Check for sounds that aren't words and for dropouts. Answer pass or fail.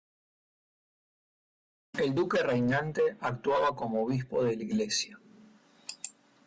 pass